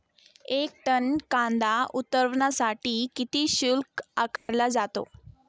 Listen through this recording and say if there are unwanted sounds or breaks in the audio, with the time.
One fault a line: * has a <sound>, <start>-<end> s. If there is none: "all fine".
* has a dropout, 4.4-4.5 s